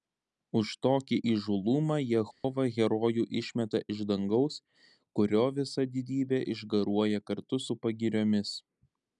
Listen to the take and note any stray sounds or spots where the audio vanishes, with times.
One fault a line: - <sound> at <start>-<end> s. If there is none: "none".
- dropout at 2.3-2.4 s